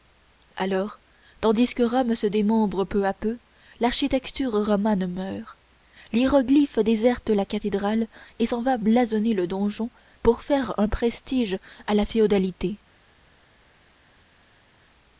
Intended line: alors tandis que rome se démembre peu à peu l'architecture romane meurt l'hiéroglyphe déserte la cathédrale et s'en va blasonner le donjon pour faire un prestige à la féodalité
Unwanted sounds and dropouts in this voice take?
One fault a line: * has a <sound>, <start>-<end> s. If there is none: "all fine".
all fine